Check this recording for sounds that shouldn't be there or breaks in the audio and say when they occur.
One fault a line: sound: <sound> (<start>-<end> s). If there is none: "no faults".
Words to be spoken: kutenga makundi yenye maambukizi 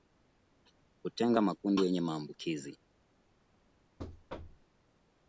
sound: thud (4.0-4.7 s)